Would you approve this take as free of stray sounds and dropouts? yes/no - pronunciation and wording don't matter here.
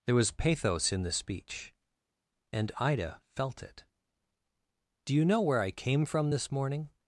yes